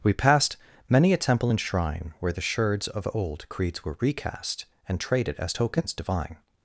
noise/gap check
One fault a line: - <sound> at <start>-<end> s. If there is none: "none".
none